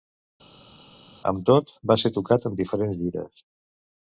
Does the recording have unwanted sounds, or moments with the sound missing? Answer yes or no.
no